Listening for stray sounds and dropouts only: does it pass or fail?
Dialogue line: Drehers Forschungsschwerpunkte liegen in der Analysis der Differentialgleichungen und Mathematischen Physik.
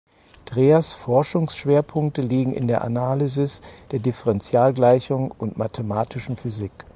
pass